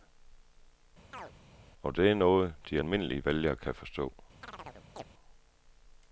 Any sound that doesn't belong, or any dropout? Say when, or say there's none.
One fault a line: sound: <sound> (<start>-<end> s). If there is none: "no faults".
sound: chirp (1.1-1.3 s)
sound: chirp (4.4-5.0 s)